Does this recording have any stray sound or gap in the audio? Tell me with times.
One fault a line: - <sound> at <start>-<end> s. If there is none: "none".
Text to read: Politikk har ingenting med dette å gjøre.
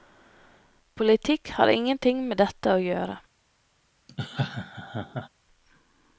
- laugh at 4.1-5.3 s